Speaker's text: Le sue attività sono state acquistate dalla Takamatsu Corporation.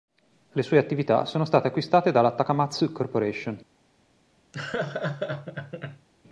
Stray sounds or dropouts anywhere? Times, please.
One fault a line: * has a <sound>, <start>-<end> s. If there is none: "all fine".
* has a laugh, 4.5-6.1 s